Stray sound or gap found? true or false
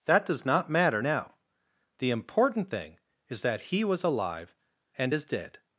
false